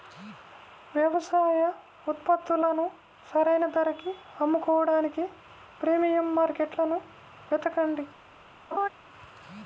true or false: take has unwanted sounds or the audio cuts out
true